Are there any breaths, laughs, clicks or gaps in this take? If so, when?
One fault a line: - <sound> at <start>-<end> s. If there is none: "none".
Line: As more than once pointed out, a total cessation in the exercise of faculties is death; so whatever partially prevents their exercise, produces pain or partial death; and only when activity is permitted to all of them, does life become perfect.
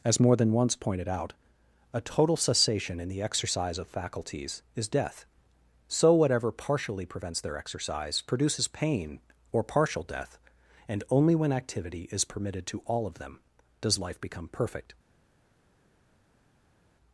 none